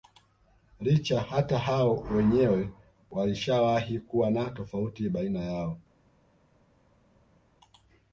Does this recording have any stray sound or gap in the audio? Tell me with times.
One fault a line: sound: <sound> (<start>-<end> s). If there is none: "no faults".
no faults